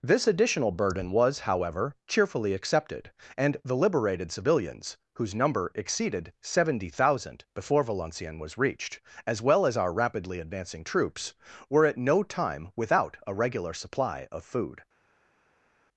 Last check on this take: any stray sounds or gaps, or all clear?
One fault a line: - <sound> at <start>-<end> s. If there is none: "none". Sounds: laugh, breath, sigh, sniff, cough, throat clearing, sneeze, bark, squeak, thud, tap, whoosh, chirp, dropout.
none